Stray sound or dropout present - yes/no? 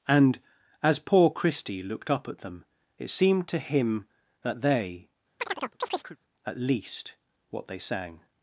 yes